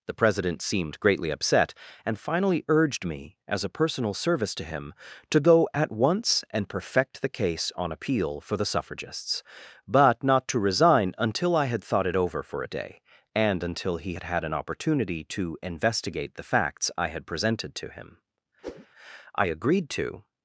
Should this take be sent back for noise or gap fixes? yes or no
yes